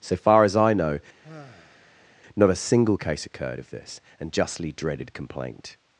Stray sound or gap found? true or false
true